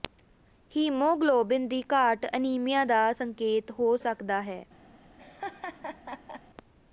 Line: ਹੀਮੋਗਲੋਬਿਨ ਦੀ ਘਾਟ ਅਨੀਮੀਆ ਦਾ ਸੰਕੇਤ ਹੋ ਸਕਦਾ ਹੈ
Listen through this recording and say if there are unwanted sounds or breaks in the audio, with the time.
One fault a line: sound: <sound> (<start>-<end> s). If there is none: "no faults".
sound: laugh (5.2-6.4 s)